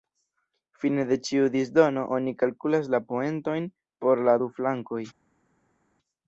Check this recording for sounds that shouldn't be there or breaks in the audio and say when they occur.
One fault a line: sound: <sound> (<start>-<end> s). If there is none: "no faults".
no faults